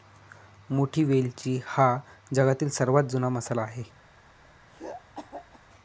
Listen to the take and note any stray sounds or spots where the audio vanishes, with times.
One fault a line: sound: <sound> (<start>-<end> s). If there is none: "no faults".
sound: throat clearing (4.7-5.6 s)